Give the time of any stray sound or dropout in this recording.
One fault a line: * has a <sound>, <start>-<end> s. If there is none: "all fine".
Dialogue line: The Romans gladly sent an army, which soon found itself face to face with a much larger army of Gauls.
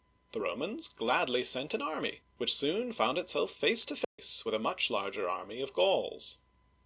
* has a dropout, 4.0-4.2 s